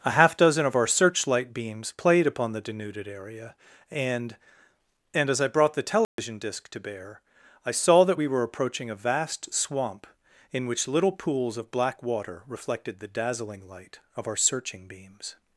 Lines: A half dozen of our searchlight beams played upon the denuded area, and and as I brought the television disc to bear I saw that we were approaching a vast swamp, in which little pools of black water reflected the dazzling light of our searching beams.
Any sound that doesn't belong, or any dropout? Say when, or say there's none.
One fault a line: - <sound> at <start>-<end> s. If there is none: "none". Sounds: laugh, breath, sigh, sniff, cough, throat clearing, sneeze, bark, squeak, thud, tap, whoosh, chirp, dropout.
- dropout at 6.0-6.2 s